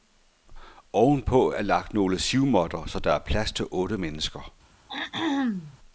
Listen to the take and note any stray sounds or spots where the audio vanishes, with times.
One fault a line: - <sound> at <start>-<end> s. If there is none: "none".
- throat clearing at 4.9-5.8 s